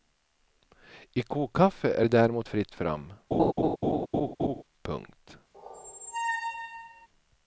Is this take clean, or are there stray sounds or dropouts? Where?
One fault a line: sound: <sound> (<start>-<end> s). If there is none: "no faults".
sound: laugh (3.3-4.6 s)
sound: squeak (5.5-7.1 s)